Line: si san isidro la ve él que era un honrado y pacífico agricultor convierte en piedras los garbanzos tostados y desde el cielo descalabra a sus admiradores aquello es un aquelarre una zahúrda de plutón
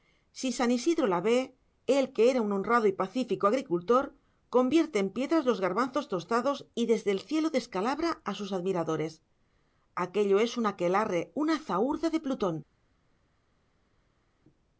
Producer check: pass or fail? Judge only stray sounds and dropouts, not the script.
pass